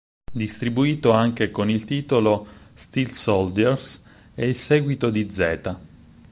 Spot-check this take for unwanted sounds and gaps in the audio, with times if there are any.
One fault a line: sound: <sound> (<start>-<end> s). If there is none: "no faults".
no faults